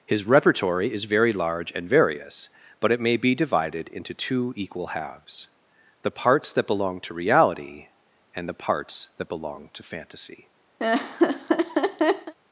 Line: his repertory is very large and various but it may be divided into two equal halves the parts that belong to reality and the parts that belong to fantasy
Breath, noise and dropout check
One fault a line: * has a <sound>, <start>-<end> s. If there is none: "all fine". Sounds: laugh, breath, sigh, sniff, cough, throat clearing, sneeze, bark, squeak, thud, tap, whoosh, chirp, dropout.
* has a laugh, 10.8-12.3 s